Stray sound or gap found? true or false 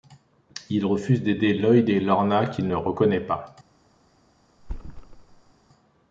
true